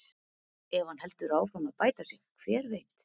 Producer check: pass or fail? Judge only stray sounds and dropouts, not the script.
pass